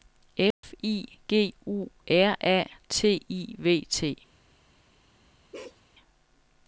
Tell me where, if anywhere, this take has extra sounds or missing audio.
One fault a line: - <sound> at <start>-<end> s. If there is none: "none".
- dropout at 0.5-0.6 s
- bark at 5.5-5.8 s